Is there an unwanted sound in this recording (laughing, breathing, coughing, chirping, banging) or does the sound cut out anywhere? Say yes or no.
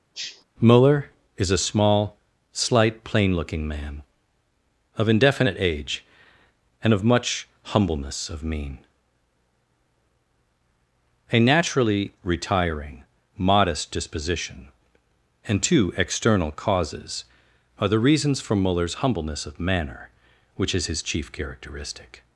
yes